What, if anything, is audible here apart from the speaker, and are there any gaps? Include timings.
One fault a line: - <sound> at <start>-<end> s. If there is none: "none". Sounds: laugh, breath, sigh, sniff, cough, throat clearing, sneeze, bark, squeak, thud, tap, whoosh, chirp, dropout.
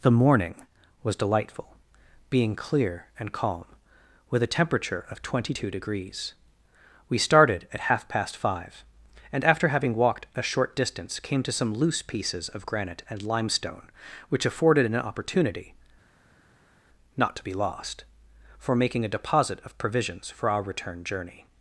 none